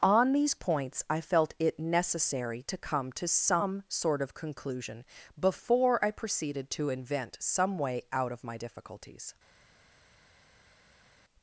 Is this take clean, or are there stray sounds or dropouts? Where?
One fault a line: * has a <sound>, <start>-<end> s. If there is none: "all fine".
all fine